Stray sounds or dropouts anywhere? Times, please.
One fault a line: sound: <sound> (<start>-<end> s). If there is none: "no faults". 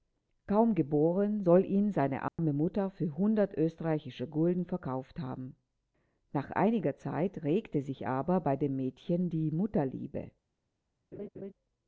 sound: dropout (2.3-2.4 s)
sound: laugh (11.1-11.5 s)